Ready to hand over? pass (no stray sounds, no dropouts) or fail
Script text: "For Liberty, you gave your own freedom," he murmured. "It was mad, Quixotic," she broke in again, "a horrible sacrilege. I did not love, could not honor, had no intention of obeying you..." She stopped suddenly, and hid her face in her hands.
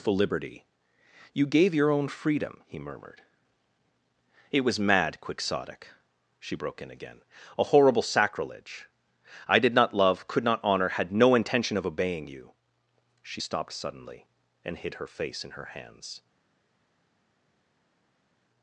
pass